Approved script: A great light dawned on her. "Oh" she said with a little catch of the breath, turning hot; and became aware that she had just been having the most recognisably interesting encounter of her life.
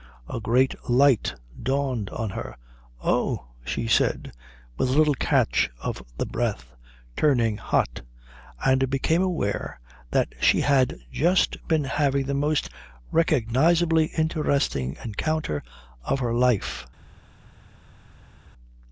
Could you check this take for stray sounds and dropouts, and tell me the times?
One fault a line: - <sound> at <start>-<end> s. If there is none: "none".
none